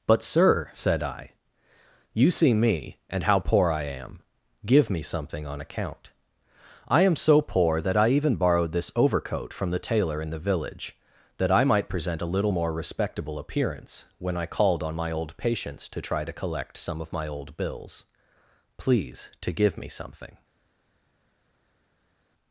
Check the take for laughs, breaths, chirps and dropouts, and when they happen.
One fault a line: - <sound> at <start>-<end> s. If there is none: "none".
none